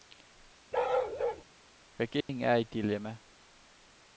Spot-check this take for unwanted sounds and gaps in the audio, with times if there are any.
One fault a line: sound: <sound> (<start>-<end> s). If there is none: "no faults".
sound: bark (0.7-1.4 s)
sound: dropout (2.2-2.3 s)